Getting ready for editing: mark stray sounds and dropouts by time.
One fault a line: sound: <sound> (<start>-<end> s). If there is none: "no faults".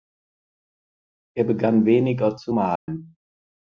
sound: dropout (2.8-2.9 s)